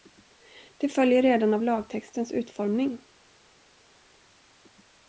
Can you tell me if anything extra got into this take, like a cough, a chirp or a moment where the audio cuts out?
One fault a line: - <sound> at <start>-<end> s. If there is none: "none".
none